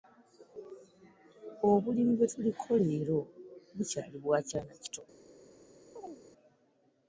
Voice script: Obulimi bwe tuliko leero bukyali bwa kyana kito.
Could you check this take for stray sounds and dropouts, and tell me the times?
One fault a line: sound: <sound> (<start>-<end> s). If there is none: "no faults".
sound: chirp (6.0-6.2 s)